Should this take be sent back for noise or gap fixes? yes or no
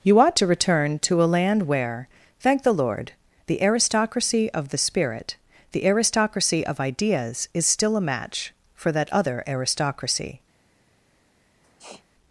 yes